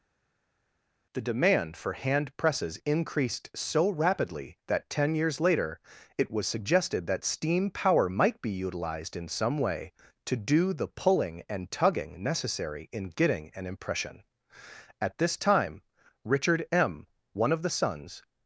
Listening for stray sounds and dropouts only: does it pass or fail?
pass